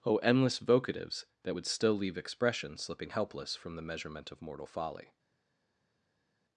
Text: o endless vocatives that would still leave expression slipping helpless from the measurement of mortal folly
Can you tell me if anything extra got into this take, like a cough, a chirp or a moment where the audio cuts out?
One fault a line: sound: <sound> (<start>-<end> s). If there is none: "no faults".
no faults